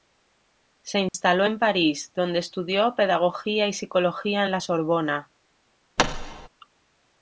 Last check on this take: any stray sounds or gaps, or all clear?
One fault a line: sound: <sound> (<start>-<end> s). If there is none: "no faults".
sound: dropout (1.1-1.1 s)
sound: thud (6.0-6.5 s)